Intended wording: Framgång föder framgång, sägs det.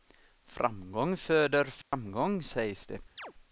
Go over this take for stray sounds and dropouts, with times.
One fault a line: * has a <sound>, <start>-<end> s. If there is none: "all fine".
* has a dropout, 1.8-1.9 s
* has a chirp, 3.2-3.3 s